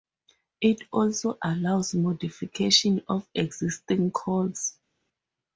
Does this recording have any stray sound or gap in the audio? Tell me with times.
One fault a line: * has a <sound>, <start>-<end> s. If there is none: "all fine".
all fine